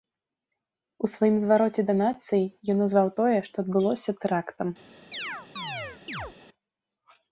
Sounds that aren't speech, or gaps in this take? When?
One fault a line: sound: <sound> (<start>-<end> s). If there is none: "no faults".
sound: chirp (5.1-6.3 s)